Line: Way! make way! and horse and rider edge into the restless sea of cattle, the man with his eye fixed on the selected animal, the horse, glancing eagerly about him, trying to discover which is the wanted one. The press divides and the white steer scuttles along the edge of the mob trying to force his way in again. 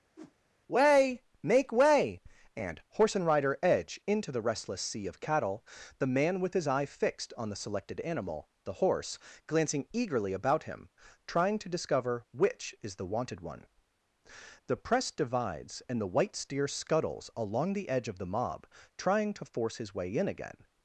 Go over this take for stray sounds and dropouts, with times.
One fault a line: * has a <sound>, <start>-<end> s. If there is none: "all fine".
* has a whoosh, 0.2-0.3 s